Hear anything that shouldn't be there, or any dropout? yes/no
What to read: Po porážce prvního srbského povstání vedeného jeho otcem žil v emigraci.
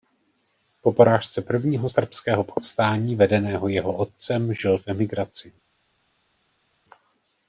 no